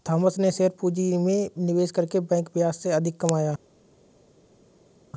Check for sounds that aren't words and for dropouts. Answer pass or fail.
pass